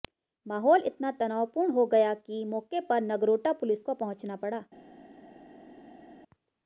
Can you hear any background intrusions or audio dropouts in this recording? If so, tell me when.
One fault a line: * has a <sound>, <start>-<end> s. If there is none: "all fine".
all fine